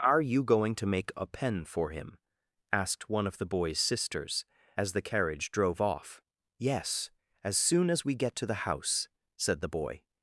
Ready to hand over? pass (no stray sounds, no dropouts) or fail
pass